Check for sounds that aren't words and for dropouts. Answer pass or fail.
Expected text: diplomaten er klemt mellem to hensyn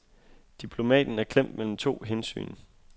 pass